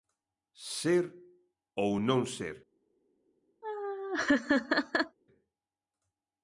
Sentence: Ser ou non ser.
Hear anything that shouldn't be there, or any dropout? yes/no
yes